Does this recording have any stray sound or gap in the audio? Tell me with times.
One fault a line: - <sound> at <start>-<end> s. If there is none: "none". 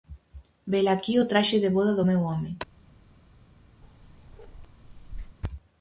- bark at 3.8-5.4 s